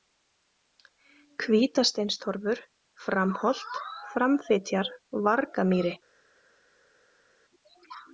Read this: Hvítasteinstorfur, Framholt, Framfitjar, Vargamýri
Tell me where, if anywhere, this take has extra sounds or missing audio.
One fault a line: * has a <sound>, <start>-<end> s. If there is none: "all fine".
all fine